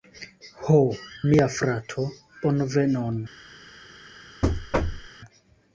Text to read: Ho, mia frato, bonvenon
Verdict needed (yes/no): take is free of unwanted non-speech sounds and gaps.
no